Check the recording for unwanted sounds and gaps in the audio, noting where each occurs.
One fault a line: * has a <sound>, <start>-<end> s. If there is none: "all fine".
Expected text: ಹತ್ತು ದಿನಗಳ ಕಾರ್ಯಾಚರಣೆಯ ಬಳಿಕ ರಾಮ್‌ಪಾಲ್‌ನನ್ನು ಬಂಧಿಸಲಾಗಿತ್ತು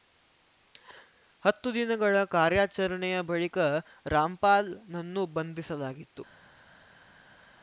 all fine